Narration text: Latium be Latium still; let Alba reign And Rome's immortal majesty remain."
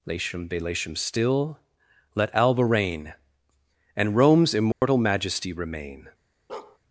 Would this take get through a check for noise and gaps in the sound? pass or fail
fail